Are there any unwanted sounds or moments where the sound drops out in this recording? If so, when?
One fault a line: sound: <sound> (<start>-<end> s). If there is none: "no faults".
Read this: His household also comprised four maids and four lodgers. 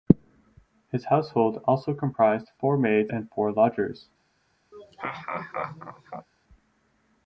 sound: laugh (4.7-6.3 s)